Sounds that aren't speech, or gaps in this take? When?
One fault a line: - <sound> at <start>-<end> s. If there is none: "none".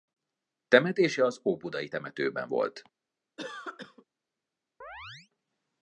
- cough at 3.4-4.0 s
- chirp at 4.8-5.3 s